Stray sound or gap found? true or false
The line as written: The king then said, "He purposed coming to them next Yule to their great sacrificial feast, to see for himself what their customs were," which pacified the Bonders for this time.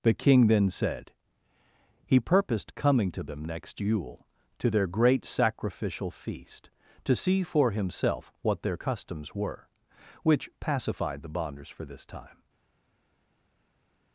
false